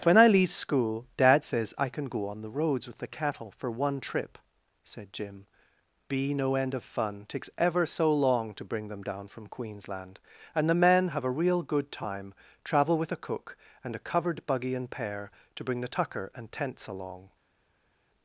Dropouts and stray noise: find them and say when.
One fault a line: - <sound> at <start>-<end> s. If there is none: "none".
none